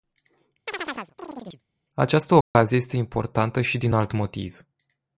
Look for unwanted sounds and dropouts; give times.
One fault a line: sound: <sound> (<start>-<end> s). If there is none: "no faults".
sound: chirp (0.7-1.6 s)
sound: dropout (2.4-2.5 s)